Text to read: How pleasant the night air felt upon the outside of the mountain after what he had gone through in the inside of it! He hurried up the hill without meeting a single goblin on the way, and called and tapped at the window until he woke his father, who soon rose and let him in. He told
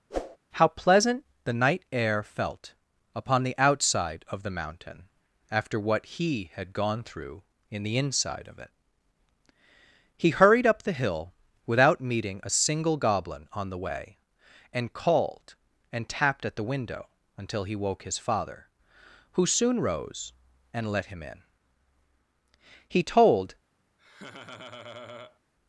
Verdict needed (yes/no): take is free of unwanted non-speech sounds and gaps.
no